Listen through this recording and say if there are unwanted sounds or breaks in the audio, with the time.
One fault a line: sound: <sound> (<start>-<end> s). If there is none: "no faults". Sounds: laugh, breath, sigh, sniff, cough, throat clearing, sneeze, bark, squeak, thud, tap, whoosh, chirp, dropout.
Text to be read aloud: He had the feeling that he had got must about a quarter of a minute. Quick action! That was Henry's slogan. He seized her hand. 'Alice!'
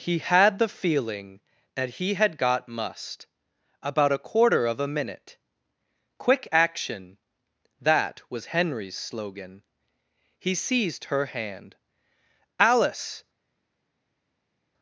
no faults